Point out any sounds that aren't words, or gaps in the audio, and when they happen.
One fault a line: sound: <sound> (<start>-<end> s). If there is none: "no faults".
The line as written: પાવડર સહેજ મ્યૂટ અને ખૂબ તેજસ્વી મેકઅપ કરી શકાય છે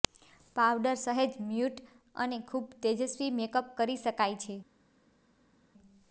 no faults